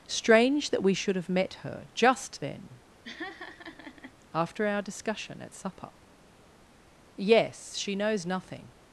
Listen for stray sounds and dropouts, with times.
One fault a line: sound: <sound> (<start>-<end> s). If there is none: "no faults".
sound: laugh (3.0-4.1 s)